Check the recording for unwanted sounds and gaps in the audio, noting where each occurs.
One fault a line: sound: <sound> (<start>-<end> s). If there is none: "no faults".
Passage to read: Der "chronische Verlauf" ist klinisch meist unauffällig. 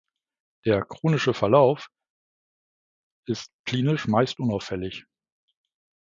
no faults